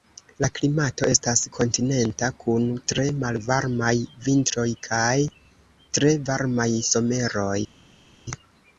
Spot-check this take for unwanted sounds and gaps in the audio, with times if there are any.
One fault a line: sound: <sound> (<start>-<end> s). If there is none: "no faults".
no faults